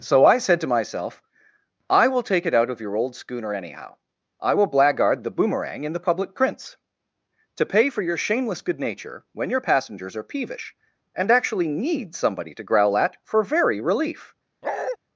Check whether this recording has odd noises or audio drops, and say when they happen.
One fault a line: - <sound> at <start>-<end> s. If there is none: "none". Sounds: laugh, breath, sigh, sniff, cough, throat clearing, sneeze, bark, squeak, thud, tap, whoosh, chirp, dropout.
- bark at 14.6-15.0 s